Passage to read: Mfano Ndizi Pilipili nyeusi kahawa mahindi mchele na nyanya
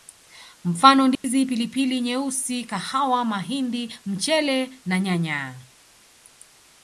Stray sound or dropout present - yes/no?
yes